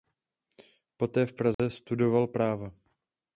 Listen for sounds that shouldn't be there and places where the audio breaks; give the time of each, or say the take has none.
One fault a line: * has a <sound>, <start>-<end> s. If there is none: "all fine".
* has a dropout, 1.5-1.6 s